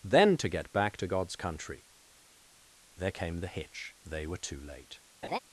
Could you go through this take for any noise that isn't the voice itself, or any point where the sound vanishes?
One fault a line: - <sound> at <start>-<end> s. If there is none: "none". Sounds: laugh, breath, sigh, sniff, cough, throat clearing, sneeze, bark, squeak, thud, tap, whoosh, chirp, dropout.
- laugh at 5.2-5.4 s